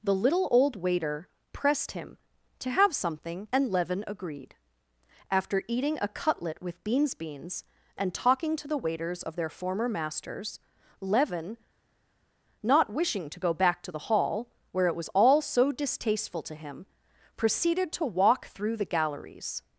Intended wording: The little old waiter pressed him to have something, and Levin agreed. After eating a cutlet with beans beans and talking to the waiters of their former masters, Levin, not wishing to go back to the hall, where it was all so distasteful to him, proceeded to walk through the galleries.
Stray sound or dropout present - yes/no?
no